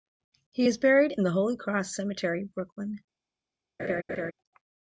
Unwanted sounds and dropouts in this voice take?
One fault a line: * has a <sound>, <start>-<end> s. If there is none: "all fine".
* has a laugh, 3.8-4.3 s